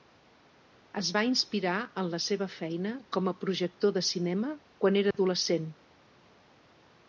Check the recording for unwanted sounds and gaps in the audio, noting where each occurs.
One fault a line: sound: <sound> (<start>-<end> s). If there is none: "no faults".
sound: dropout (5.1-5.1 s)